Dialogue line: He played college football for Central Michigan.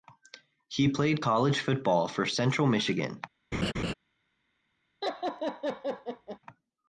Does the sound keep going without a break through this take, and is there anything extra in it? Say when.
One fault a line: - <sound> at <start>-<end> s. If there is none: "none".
- laugh at 3.5-3.9 s
- laugh at 5.0-6.4 s